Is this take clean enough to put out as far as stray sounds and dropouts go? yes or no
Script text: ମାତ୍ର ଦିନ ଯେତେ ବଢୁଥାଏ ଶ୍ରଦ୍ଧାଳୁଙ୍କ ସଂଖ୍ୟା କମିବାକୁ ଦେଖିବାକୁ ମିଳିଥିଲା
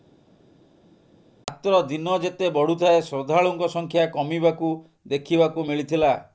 yes